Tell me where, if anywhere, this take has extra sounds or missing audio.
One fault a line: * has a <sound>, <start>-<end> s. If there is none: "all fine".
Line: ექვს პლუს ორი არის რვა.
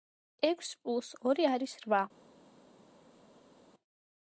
all fine